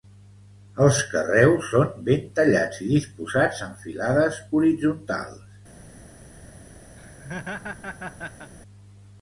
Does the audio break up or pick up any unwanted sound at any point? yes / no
yes